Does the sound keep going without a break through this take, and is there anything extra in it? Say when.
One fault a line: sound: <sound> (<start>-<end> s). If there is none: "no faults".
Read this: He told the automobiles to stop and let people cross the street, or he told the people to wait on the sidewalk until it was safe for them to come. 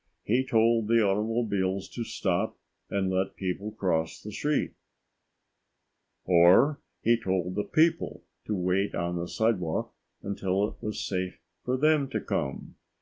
no faults